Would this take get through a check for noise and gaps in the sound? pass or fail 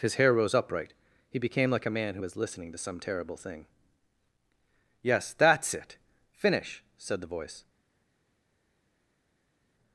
pass